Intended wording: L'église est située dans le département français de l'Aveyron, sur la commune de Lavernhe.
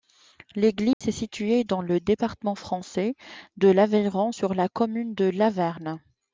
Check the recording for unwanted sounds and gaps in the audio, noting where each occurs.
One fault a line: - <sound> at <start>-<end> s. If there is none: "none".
- dropout at 0.9-1.0 s